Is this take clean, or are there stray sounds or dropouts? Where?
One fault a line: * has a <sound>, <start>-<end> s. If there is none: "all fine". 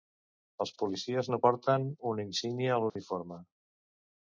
* has a dropout, 2.9-3.0 s